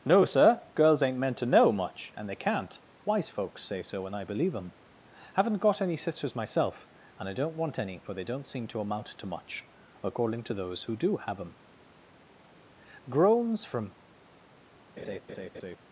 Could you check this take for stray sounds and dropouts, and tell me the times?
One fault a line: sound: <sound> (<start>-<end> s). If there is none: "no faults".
sound: laugh (15.0-15.8 s)